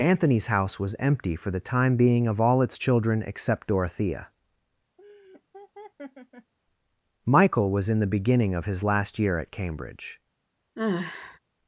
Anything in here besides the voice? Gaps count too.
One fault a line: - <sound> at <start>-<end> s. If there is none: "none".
- laugh at 5.0-6.5 s
- sigh at 10.8-11.4 s